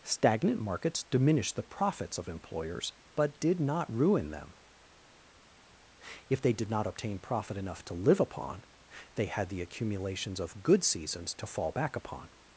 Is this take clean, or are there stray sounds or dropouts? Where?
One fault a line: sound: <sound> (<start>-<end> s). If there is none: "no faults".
no faults